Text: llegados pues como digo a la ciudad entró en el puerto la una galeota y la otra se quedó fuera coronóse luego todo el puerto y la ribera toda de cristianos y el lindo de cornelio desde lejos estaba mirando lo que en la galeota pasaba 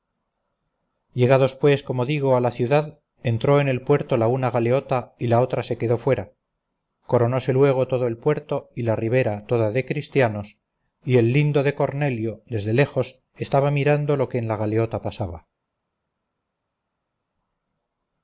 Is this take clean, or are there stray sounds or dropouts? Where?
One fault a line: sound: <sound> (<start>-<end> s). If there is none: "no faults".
no faults